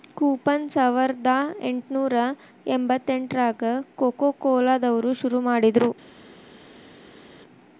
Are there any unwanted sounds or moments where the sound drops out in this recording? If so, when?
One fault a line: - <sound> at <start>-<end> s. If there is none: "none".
none